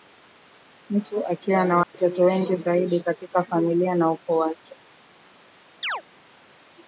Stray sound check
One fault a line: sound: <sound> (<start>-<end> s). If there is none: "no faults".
sound: dropout (1.8-1.9 s)
sound: chirp (5.8-6.0 s)